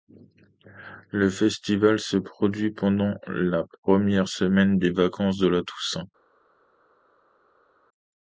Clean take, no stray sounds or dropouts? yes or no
yes